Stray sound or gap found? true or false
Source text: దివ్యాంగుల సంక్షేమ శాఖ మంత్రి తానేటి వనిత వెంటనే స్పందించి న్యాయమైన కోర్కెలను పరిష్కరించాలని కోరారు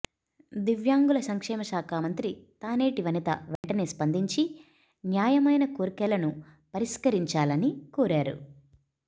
true